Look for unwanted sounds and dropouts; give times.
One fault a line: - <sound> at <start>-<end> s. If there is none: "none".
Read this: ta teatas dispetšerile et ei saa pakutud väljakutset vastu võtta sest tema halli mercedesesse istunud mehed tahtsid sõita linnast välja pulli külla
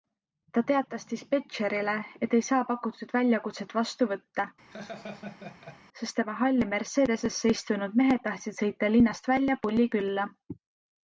- laugh at 4.7-5.8 s